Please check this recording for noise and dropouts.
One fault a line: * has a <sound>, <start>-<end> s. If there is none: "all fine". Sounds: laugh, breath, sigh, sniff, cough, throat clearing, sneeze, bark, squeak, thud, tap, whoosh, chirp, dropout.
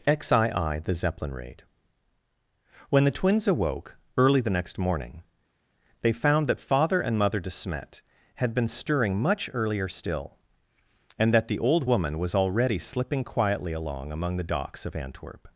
all fine